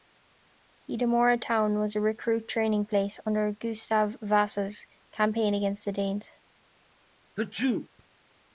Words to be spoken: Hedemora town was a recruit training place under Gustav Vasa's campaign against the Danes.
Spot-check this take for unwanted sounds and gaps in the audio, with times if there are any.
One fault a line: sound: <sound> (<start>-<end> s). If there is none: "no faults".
sound: sneeze (7.4-7.9 s)